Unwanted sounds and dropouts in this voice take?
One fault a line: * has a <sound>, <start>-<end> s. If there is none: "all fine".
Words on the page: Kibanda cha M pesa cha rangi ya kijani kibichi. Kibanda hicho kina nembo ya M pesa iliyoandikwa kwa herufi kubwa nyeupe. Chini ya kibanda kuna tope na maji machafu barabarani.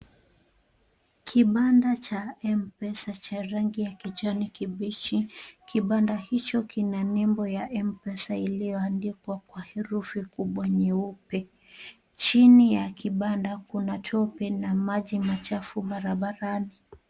all fine